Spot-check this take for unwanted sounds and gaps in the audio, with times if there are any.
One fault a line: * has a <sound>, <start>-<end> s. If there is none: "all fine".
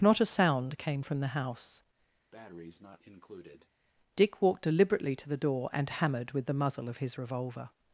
* has a breath, 2.3-3.7 s